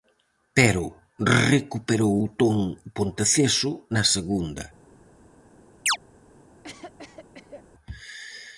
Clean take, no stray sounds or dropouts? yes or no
no